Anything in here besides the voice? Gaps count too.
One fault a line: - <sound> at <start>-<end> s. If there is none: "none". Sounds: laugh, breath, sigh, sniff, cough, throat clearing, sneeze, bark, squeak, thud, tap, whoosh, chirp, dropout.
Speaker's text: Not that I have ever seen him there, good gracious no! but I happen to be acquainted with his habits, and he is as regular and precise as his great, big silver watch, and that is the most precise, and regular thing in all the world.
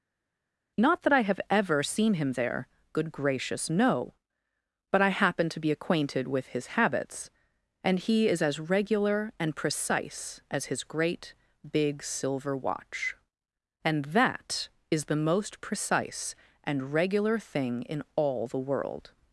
none